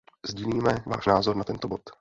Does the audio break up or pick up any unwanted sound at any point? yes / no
no